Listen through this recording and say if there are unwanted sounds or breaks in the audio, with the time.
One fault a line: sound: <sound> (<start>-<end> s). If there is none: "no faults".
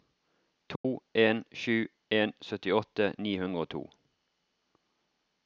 sound: dropout (0.8-0.8 s)